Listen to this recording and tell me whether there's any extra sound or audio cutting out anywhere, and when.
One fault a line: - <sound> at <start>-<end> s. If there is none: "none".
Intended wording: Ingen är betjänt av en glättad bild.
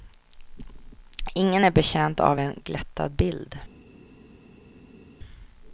none